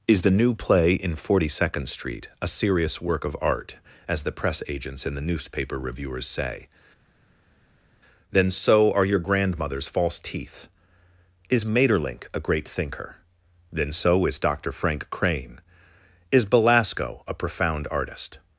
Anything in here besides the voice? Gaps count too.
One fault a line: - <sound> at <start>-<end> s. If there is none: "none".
none